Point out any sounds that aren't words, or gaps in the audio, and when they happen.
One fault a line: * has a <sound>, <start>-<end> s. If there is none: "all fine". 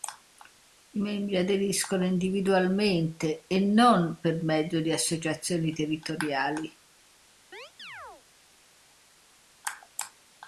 * has a chirp, 7.5-8.2 s